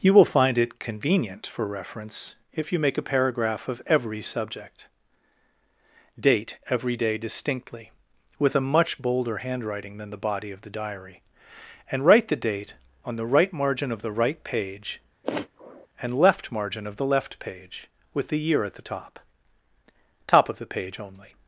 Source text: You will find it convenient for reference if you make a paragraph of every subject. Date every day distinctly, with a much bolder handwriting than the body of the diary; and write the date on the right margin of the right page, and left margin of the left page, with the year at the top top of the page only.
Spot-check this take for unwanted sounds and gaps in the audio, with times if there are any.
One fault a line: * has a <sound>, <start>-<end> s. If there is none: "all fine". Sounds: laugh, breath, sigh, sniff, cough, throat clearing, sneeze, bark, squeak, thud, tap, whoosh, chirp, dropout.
* has a sniff, 15.2-15.9 s